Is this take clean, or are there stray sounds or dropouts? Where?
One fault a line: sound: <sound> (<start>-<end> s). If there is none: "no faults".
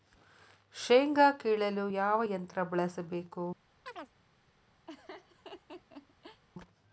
sound: chirp (3.9-4.1 s)
sound: laugh (4.9-6.4 s)